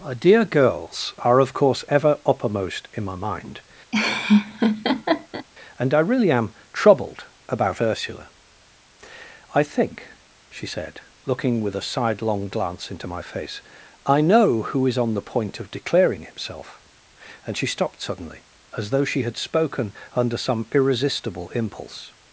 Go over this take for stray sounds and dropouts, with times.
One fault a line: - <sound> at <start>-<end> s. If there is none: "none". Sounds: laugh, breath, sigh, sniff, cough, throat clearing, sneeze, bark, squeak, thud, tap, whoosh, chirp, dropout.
- laugh at 3.9-5.5 s